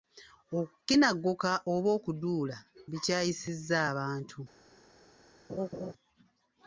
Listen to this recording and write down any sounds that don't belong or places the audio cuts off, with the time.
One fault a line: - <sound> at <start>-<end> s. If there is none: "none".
- laugh at 5.5-5.9 s